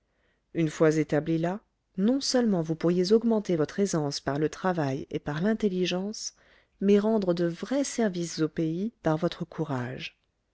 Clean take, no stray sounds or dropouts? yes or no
yes